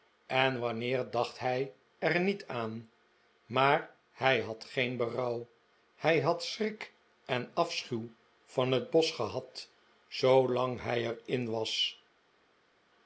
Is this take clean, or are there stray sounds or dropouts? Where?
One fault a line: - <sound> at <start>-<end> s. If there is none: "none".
none